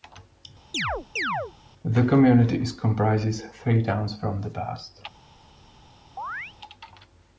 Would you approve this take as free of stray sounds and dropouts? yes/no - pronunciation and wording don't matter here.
no